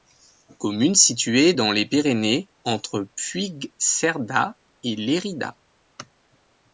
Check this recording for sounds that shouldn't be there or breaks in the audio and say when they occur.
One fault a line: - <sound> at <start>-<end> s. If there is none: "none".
none